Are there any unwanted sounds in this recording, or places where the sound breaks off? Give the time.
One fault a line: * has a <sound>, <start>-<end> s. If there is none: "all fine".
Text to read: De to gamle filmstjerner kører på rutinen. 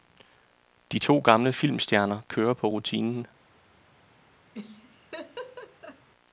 * has a laugh, 4.5-6.1 s